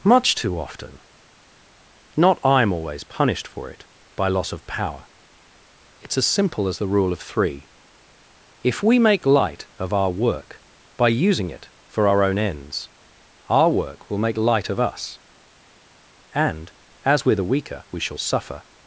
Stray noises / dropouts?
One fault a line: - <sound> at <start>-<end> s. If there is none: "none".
none